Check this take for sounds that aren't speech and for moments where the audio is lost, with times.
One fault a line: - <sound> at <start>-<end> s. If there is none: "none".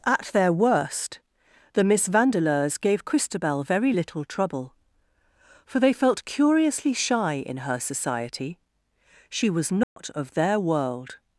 - dropout at 9.8-10.0 s